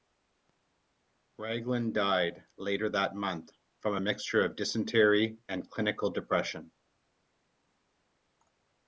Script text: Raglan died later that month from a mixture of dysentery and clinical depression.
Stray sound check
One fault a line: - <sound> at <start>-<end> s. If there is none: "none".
none